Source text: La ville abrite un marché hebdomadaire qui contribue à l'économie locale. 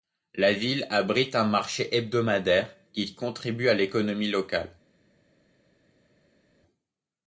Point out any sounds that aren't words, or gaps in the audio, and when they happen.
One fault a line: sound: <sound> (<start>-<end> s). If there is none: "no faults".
no faults